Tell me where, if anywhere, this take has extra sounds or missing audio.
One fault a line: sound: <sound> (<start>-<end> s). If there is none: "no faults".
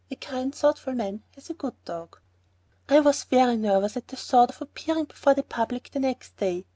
no faults